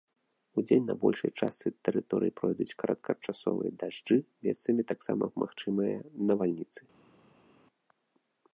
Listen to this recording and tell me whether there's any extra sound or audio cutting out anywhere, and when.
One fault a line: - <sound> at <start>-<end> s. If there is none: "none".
none